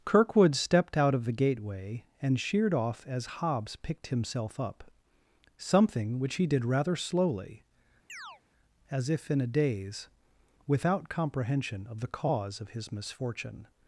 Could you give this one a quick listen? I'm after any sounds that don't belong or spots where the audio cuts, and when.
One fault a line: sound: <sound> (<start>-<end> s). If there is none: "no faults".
sound: chirp (8.1-8.4 s)